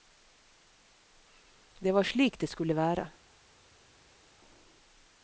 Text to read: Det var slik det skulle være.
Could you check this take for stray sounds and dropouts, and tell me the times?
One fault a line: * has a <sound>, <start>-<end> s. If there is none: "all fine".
all fine